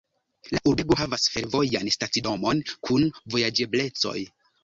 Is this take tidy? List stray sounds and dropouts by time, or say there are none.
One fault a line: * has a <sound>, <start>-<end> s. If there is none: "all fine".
all fine